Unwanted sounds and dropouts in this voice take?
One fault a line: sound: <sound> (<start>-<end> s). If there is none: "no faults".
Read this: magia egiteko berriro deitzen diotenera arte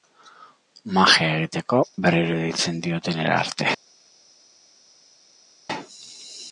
no faults